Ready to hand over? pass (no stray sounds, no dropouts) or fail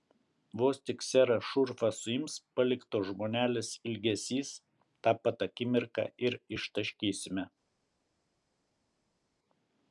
pass